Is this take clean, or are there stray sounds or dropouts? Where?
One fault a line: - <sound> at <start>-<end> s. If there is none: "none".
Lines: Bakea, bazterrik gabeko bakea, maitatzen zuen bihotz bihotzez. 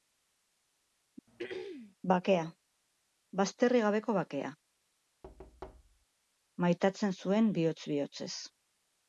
- throat clearing at 1.3-2.0 s
- thud at 5.2-6.1 s